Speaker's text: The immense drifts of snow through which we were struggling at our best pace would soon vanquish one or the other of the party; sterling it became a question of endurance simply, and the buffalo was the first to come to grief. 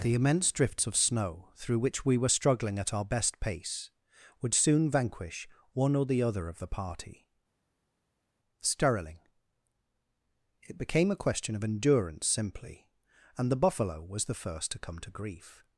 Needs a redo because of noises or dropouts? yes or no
no